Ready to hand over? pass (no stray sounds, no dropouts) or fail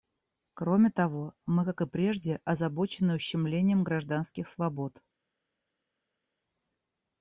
pass